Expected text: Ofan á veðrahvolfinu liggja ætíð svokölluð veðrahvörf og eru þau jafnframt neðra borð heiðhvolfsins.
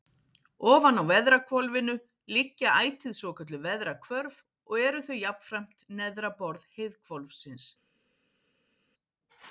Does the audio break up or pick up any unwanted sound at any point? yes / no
no